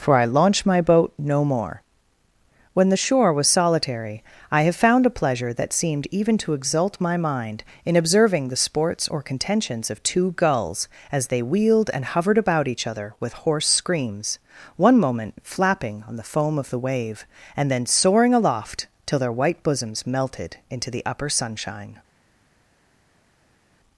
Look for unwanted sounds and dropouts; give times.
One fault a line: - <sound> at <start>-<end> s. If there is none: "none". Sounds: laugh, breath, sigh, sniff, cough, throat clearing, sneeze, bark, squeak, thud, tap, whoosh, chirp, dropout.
none